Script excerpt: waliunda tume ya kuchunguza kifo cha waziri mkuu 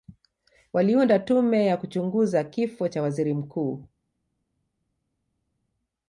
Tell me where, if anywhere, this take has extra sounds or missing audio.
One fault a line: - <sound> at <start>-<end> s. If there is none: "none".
none